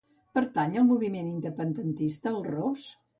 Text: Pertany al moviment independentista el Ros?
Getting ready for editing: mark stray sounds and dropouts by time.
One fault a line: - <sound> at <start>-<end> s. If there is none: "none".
none